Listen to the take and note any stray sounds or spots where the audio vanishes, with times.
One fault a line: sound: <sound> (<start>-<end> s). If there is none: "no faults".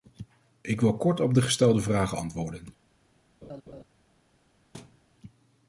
sound: laugh (3.4-3.8 s)
sound: thud (4.7-5.0 s)